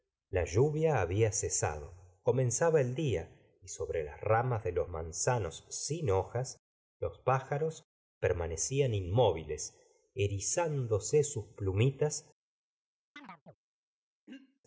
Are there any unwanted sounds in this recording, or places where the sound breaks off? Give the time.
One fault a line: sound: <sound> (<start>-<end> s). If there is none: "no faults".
sound: chirp (13.2-13.6 s)
sound: throat clearing (14.3-14.6 s)